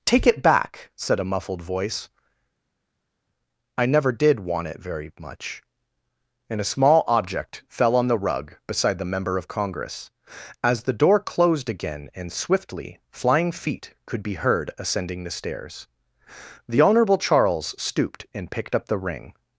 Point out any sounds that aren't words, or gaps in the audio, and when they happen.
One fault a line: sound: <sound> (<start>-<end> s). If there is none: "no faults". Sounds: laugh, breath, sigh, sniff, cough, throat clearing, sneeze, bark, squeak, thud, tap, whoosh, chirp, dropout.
no faults